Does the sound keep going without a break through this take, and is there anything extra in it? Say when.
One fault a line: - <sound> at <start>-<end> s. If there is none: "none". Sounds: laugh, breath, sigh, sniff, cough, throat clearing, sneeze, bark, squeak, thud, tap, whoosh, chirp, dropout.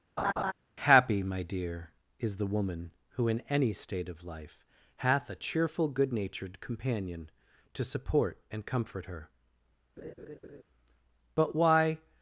- laugh at 0.2-0.5 s
- laugh at 10.0-10.6 s